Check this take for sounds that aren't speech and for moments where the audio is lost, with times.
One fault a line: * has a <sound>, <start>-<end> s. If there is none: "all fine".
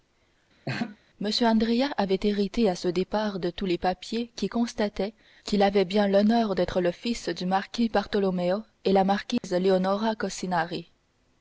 * has a laugh, 0.7-1.0 s
* has a dropout, 9.4-9.4 s